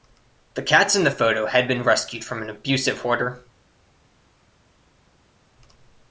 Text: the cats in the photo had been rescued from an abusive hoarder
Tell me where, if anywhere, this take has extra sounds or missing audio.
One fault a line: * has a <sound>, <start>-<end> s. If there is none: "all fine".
all fine